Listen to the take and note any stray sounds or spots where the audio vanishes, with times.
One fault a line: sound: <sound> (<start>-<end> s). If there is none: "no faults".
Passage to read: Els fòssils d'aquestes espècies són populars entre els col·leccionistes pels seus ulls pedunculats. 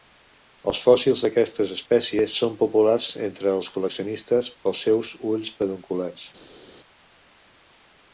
no faults